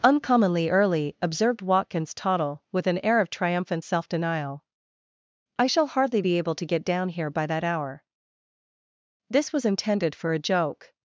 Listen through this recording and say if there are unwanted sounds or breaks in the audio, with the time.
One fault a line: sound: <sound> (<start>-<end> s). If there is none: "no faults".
no faults